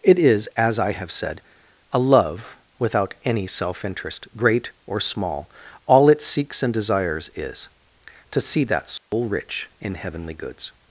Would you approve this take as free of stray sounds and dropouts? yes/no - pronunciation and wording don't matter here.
no